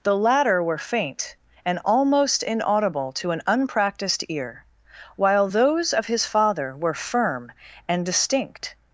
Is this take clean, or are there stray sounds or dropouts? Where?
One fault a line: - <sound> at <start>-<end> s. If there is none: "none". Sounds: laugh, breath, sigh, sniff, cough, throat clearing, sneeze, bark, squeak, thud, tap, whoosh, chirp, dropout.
none